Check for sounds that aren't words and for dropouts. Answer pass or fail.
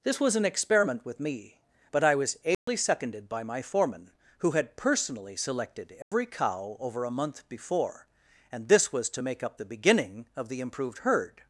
fail